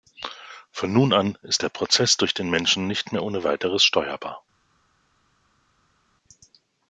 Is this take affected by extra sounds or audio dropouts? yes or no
no